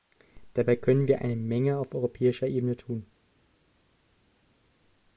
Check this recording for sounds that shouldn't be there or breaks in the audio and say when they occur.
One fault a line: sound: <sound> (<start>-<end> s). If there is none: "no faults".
no faults